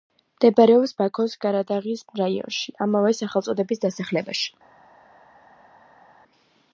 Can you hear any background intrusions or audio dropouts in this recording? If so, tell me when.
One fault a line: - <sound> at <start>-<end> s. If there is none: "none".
none